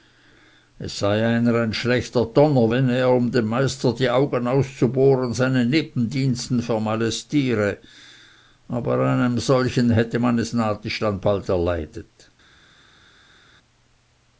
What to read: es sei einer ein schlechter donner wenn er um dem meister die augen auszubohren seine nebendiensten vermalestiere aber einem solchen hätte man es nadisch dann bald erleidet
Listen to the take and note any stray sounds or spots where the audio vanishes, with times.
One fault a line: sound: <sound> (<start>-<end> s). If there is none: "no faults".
no faults